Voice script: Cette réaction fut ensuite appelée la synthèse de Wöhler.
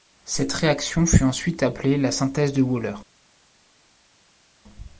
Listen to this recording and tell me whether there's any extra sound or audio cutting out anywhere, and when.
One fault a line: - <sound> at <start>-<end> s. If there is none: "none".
none